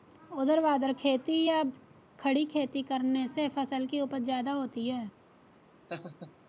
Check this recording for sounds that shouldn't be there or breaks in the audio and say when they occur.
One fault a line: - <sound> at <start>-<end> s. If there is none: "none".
- laugh at 5.9-6.3 s